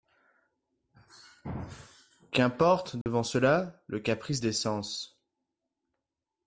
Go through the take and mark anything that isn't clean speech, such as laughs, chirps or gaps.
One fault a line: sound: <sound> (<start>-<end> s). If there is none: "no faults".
sound: dropout (3.0-3.1 s)